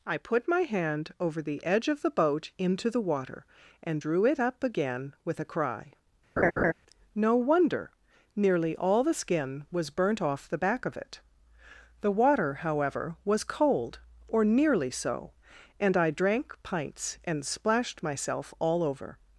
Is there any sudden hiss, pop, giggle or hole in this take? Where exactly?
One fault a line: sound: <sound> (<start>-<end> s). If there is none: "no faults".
sound: laugh (6.4-6.7 s)